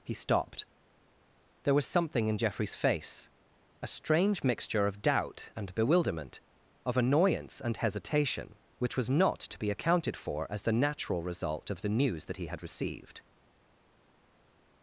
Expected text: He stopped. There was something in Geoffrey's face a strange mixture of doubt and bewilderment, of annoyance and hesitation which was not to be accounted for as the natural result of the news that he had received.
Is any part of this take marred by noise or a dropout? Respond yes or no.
no